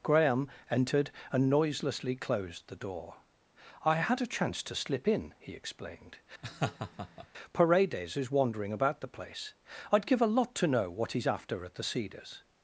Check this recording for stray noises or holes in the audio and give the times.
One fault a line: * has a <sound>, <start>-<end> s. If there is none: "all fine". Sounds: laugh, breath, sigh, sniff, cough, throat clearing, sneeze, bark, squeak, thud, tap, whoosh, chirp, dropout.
* has a laugh, 6.4-7.3 s